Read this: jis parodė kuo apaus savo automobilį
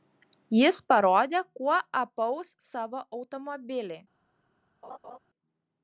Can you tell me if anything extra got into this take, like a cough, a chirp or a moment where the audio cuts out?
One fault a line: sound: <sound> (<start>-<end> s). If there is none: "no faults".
sound: laugh (4.8-5.2 s)